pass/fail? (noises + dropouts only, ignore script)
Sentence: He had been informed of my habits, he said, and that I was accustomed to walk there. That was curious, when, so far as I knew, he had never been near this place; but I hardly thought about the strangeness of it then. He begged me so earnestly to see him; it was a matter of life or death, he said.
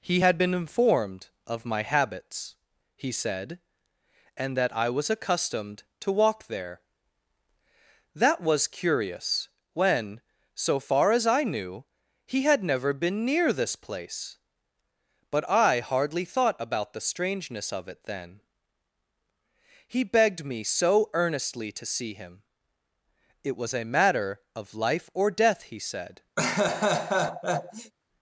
fail